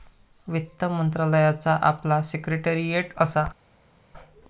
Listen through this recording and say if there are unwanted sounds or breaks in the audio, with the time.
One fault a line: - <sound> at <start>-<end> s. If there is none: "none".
none